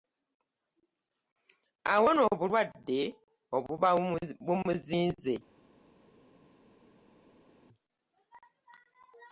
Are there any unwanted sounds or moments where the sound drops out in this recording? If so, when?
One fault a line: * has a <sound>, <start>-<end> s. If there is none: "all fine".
all fine